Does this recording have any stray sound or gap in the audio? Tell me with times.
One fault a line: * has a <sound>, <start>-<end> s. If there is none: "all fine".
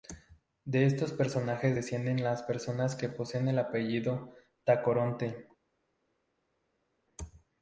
all fine